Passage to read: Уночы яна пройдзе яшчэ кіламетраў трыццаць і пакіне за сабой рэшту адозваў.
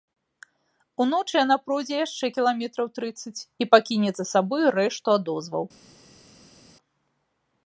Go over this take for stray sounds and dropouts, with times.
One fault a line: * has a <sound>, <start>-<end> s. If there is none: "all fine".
all fine